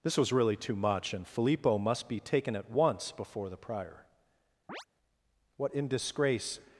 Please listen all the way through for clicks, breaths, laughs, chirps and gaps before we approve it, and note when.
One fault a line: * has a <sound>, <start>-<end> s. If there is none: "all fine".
* has a chirp, 4.7-4.9 s